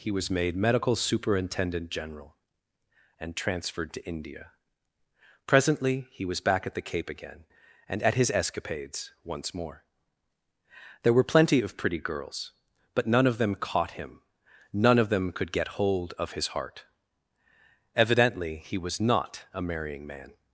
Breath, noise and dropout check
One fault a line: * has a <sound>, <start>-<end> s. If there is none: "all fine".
all fine